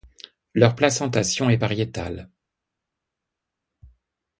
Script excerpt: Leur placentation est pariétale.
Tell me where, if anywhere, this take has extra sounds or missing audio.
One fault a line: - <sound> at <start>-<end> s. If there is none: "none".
none